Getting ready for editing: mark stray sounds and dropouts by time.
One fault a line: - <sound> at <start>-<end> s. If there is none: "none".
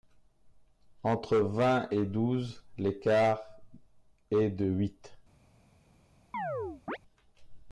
- chirp at 6.3-7.0 s